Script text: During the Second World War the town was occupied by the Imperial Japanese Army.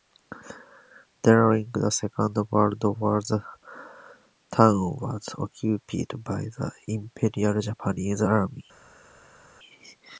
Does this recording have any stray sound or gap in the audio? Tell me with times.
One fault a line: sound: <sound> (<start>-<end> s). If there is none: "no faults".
no faults